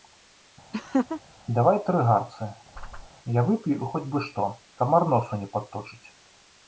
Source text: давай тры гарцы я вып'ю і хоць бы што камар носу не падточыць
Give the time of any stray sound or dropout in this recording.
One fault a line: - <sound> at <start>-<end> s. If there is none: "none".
- laugh at 0.7-1.2 s
- whoosh at 2.7-3.1 s